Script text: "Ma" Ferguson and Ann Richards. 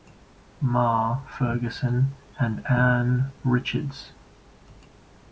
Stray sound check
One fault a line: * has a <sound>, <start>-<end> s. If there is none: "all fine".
all fine